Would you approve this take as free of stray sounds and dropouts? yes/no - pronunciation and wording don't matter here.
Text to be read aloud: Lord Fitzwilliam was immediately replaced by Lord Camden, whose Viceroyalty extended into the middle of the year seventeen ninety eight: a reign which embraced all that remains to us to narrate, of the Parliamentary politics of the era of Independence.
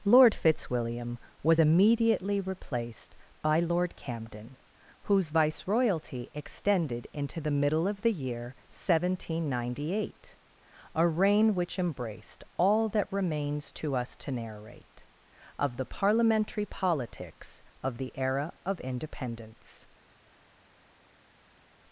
yes